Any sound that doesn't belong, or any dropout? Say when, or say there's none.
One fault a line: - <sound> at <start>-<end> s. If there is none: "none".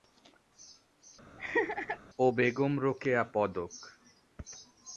- laugh at 1.4-2.0 s